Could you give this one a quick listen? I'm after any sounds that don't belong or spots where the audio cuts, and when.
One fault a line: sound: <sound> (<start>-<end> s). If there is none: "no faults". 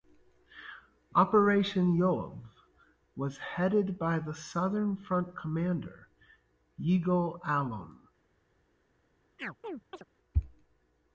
sound: chirp (9.4-10.0 s)